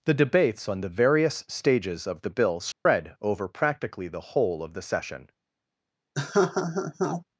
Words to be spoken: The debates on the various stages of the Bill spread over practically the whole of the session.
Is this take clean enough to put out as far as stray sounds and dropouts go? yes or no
no